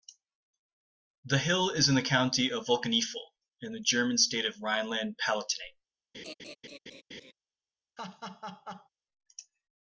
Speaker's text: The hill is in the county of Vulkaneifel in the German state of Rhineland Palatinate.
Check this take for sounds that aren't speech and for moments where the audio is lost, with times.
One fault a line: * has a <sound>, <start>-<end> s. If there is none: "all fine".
* has a laugh, 6.1-7.3 s
* has a laugh, 8.0-8.9 s